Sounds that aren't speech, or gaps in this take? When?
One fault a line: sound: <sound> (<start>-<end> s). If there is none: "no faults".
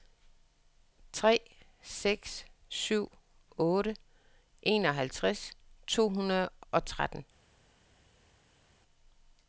no faults